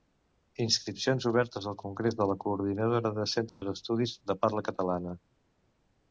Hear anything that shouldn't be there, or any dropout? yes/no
yes